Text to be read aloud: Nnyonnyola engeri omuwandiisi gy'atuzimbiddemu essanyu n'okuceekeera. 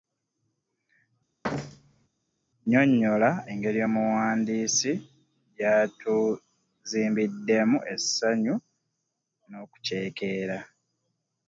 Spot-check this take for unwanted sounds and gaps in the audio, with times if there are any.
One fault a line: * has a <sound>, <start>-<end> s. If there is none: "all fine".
* has a thud, 1.4-2.1 s